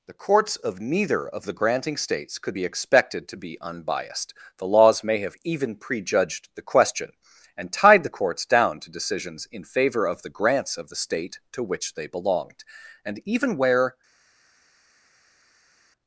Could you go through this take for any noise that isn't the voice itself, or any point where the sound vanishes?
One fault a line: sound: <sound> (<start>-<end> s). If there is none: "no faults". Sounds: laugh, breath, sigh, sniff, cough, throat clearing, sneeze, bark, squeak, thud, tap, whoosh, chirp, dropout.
no faults